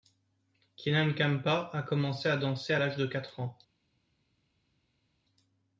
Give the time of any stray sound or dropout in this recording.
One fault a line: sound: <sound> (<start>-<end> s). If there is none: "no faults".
no faults